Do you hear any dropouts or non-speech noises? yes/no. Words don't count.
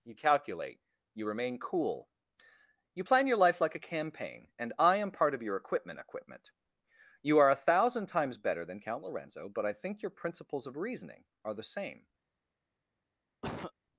yes